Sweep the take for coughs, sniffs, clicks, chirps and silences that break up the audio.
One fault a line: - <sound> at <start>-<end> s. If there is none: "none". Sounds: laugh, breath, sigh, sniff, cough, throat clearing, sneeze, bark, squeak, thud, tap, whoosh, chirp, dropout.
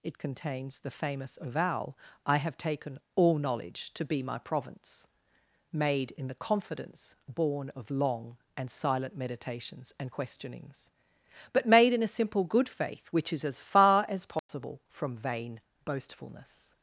- dropout at 14.4-14.5 s